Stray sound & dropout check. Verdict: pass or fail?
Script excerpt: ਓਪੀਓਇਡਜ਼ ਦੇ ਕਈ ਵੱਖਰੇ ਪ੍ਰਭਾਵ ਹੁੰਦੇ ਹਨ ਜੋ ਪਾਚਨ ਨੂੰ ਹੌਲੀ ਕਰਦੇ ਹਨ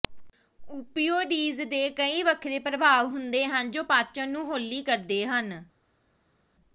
pass